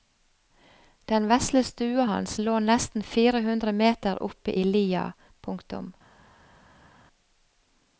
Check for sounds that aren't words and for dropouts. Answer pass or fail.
pass